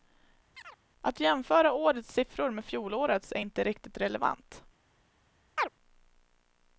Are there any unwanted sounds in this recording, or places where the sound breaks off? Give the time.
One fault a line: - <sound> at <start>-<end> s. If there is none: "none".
- chirp at 0.5-0.8 s
- chirp at 5.6-5.7 s